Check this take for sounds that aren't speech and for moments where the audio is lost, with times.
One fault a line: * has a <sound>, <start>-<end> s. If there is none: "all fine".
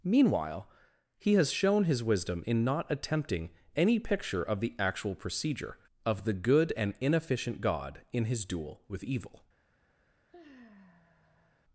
* has a sigh, 10.3-11.6 s